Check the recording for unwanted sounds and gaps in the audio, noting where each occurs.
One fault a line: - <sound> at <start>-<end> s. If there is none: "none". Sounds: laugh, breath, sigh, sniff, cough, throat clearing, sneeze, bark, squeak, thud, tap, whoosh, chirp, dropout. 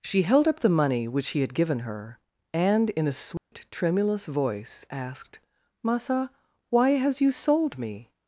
- dropout at 3.4-3.5 s